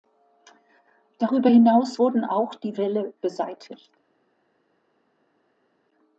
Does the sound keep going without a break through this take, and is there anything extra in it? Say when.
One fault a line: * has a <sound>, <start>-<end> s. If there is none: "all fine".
all fine